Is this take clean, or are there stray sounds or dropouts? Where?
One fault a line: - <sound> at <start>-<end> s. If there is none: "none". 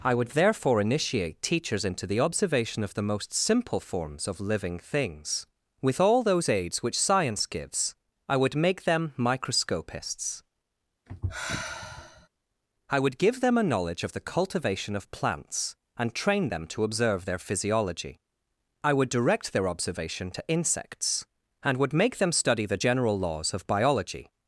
- sigh at 11.1-12.3 s